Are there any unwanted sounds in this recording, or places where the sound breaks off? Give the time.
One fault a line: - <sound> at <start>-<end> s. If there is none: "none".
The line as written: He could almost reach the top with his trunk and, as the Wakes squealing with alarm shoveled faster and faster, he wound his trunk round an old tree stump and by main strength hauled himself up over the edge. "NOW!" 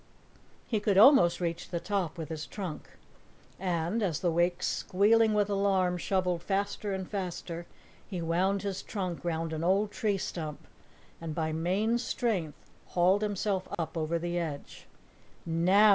- dropout at 13.7-13.8 s